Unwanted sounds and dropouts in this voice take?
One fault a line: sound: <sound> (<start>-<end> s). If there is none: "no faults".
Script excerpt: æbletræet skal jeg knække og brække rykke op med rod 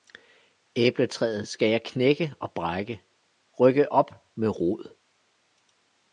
no faults